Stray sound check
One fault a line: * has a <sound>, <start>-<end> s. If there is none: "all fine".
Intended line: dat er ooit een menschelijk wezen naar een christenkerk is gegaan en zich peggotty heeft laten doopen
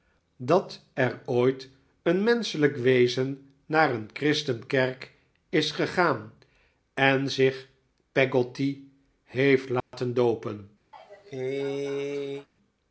* has a dropout, 9.8-9.9 s
* has a cough, 10.9-12.5 s